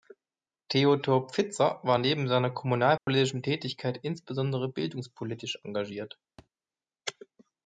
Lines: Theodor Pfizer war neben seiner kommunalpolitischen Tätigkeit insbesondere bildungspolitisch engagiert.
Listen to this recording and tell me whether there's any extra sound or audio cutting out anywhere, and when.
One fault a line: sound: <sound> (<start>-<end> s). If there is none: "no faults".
sound: dropout (3.0-3.1 s)
sound: thud (6.4-6.5 s)